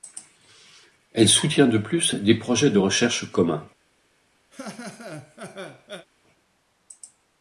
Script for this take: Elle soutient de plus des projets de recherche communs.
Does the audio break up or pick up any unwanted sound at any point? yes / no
yes